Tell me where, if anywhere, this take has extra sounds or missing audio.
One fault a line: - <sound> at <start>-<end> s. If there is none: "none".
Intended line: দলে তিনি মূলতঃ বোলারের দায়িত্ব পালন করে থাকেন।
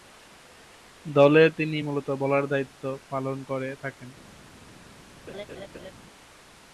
- laugh at 5.3-5.9 s